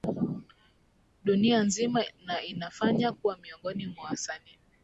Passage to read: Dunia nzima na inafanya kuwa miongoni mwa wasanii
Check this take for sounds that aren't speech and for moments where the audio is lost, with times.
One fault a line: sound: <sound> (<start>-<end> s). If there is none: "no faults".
no faults